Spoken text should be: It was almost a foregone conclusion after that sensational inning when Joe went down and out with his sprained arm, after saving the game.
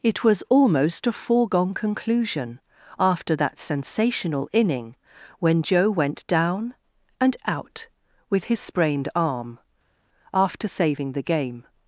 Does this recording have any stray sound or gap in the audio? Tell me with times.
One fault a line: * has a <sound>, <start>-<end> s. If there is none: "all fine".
all fine